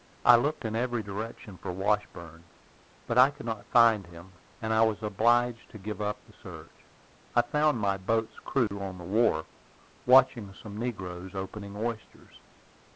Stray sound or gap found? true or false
true